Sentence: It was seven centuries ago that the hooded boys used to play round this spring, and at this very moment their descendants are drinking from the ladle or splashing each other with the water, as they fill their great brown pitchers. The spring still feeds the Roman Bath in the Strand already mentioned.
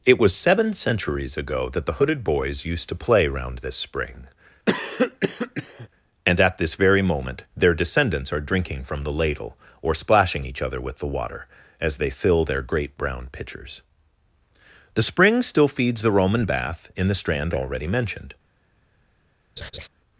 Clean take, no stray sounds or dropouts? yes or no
no